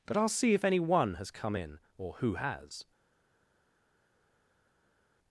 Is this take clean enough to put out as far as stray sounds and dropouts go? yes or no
yes